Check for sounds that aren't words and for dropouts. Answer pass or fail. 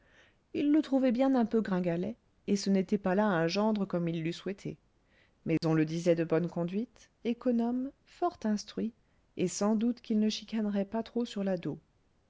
fail